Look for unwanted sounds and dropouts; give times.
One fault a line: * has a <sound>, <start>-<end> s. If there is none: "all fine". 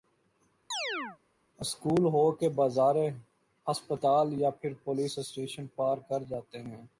* has a chirp, 0.7-1.2 s